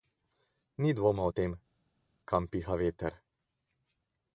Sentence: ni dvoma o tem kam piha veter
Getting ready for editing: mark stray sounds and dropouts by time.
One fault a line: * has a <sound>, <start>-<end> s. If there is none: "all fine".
all fine